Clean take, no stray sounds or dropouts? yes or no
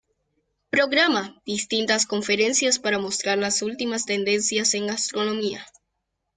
yes